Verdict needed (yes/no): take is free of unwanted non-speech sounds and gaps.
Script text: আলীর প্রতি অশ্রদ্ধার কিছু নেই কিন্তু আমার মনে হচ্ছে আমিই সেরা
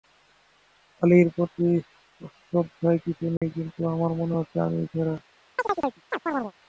no